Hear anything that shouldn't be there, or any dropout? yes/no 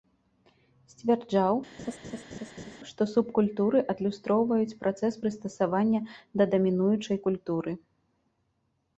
yes